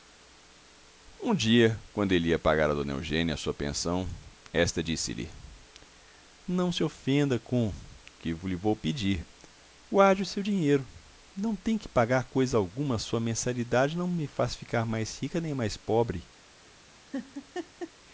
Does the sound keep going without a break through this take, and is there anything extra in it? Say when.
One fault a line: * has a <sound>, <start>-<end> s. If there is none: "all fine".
* has a laugh, 17.1-17.9 s